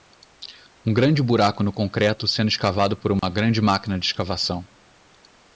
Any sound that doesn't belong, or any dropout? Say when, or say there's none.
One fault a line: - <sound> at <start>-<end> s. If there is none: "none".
- dropout at 3.2-3.2 s